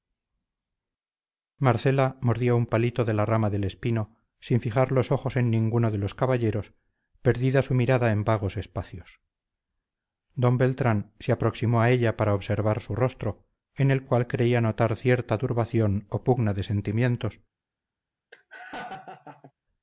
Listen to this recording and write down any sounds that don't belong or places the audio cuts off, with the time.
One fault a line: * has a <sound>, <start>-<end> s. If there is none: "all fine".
* has a laugh, 18.3-19.5 s